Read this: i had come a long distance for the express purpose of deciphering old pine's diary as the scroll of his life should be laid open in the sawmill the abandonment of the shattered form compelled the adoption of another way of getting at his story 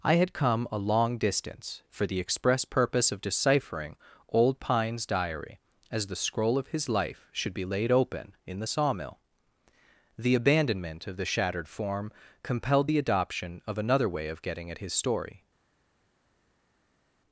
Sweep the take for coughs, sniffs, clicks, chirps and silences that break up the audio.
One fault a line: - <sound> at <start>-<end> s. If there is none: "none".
none